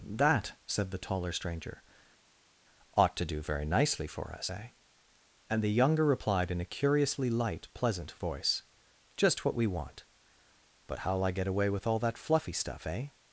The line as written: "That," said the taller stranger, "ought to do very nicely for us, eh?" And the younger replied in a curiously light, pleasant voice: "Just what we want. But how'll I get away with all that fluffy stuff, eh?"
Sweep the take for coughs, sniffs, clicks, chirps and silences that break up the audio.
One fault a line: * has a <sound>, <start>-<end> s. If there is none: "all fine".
all fine